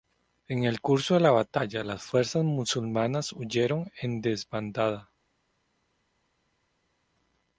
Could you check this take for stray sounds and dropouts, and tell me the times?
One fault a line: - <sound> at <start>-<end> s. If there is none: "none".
none